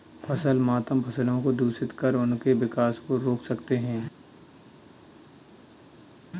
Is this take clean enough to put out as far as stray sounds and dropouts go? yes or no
yes